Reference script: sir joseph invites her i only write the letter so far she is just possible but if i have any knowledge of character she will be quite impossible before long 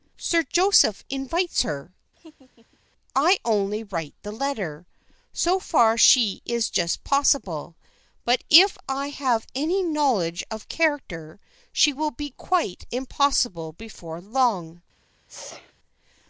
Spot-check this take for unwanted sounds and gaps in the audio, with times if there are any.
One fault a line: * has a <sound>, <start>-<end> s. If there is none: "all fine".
* has a laugh, 2.2-2.8 s
* has a sneeze, 15.3-15.7 s